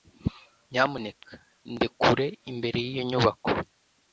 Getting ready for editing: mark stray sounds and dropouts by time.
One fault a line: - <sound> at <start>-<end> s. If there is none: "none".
none